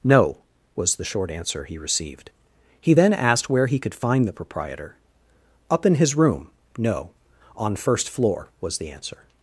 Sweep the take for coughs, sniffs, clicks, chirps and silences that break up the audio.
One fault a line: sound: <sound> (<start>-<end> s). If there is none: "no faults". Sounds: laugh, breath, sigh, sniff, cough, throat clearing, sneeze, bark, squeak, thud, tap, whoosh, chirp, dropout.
no faults